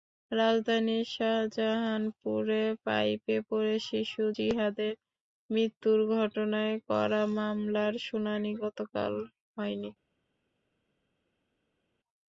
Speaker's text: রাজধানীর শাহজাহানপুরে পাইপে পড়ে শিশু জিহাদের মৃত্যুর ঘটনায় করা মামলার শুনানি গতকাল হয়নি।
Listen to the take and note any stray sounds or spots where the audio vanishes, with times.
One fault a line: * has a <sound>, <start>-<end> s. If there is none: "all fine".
all fine